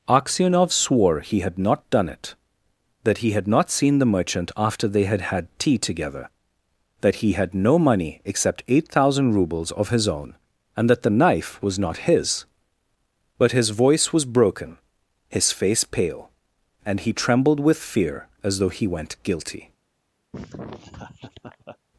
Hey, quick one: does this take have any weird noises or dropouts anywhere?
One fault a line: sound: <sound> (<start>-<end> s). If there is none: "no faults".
sound: laugh (20.3-21.8 s)